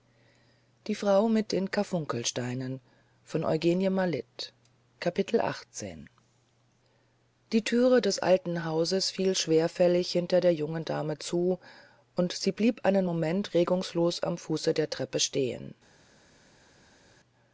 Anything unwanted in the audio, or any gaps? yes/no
no